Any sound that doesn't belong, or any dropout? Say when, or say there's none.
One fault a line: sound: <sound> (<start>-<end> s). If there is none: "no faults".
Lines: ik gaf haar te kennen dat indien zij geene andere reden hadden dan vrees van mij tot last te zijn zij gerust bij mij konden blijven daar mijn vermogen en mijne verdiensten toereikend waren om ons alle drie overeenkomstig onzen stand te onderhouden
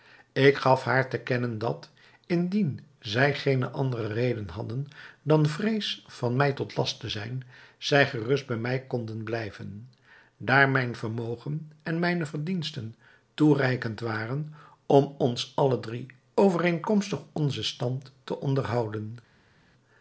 no faults